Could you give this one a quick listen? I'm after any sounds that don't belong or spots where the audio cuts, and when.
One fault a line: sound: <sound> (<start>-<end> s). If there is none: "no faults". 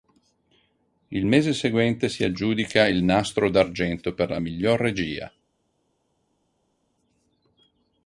no faults